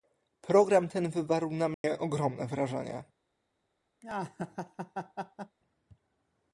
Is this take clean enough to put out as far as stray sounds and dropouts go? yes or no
no